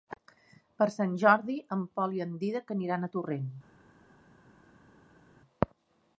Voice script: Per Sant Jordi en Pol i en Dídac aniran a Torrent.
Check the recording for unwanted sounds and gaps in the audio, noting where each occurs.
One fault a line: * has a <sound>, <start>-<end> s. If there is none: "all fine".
all fine